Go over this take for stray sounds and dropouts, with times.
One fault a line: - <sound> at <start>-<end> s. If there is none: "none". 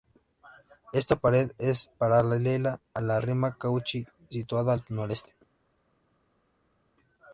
none